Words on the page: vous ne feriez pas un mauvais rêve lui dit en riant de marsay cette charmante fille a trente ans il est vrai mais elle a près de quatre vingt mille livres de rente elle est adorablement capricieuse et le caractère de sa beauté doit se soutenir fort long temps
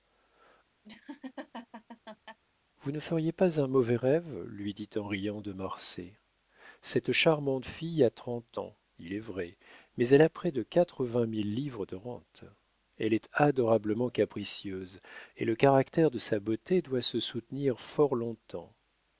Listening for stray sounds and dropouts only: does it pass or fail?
fail